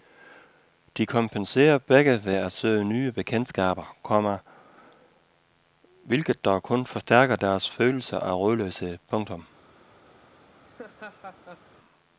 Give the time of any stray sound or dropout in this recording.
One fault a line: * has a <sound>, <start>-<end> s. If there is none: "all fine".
* has a laugh, 10.6-11.7 s